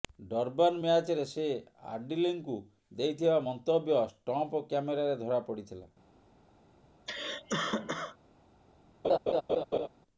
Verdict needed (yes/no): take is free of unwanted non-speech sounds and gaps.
no